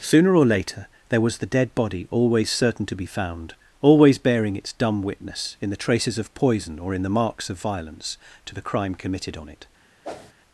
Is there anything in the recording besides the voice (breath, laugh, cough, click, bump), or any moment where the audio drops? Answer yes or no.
yes